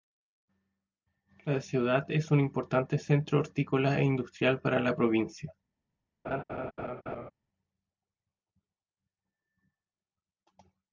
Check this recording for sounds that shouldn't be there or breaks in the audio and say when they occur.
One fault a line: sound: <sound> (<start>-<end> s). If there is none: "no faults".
sound: laugh (6.2-7.3 s)